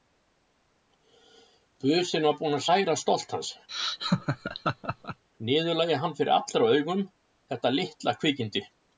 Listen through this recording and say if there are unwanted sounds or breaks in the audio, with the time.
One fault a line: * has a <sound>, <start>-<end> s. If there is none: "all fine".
* has a laugh, 3.7-5.2 s